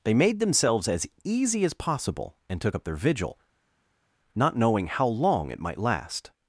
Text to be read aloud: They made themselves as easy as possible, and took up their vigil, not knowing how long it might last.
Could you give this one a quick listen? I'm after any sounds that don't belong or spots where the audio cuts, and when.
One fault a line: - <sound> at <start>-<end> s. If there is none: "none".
none